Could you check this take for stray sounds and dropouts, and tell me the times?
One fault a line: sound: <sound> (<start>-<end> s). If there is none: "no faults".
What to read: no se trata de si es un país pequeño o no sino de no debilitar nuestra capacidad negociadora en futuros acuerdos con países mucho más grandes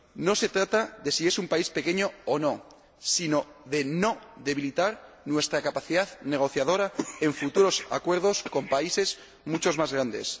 no faults